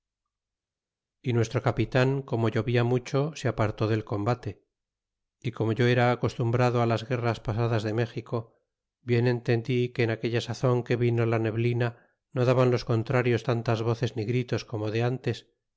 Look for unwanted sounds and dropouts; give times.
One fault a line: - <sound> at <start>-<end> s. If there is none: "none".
none